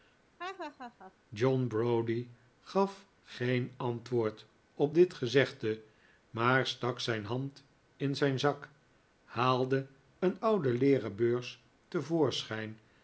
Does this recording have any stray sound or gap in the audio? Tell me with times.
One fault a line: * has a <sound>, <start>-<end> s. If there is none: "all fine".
* has a laugh, 0.4-1.1 s